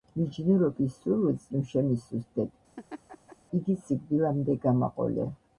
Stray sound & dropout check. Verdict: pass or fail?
fail